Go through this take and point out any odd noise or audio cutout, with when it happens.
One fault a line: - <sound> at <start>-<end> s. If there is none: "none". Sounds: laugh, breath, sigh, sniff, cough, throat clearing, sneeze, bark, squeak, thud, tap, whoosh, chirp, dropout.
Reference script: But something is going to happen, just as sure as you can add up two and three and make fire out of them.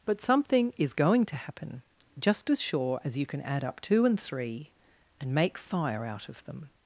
none